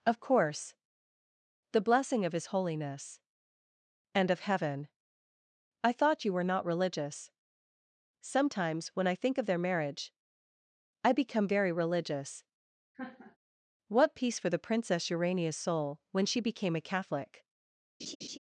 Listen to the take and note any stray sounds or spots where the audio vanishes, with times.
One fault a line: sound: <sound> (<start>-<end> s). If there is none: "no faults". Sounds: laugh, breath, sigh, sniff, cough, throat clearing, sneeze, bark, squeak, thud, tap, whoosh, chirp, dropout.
sound: laugh (12.9-13.4 s)
sound: laugh (18.0-18.4 s)